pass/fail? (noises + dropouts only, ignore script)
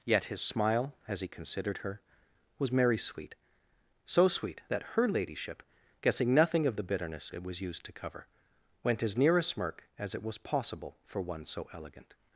pass